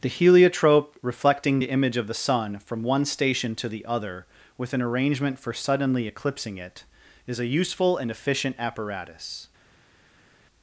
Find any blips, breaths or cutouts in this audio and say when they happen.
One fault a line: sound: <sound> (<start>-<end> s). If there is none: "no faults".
no faults